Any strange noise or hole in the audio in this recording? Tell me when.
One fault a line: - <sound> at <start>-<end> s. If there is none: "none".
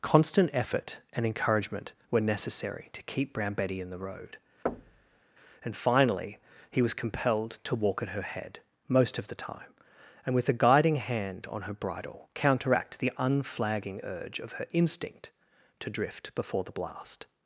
- thud at 4.7-5.2 s